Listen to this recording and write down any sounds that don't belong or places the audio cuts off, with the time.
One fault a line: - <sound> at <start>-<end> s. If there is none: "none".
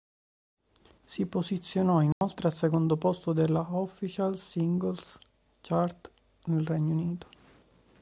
- dropout at 2.1-2.2 s